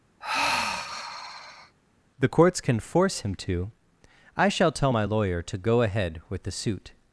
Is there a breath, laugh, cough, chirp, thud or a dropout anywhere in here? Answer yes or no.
yes